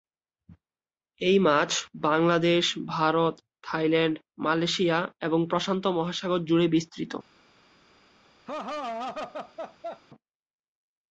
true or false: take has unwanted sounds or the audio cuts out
true